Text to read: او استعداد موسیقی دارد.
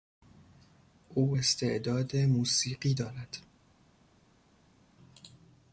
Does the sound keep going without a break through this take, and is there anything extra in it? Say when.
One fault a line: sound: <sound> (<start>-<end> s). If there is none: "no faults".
no faults